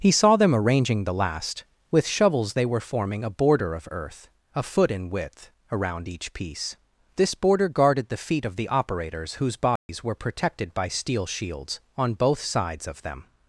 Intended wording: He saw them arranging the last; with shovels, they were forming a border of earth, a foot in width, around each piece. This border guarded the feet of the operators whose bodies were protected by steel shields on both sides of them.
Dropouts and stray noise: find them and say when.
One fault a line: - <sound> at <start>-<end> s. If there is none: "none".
- dropout at 9.8-9.9 s